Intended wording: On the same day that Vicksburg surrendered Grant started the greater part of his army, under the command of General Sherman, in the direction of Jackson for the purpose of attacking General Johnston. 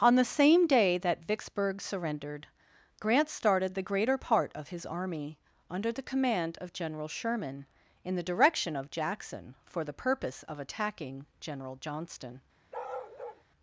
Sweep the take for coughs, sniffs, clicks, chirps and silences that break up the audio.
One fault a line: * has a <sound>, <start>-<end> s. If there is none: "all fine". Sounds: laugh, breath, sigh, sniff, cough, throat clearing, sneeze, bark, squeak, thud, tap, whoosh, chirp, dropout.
* has a bark, 12.7-13.4 s